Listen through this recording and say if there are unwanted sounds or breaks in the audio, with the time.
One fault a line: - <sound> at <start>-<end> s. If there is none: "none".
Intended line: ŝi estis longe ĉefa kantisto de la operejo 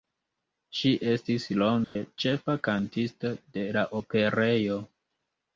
- dropout at 1.8-2.0 s